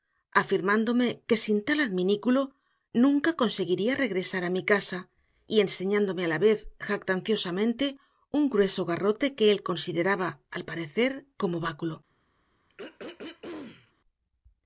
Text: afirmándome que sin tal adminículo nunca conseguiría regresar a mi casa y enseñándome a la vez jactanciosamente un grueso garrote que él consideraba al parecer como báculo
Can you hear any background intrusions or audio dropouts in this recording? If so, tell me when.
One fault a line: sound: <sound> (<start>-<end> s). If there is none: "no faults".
sound: throat clearing (12.7-13.9 s)